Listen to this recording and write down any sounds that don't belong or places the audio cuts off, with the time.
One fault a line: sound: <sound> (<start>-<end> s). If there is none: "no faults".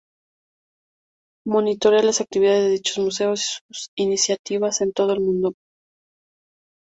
no faults